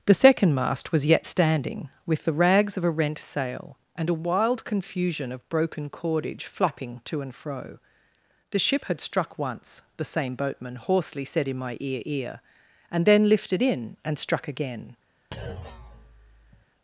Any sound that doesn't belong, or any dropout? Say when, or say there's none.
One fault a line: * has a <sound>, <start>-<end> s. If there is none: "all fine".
* has a thud, 15.3-16.7 s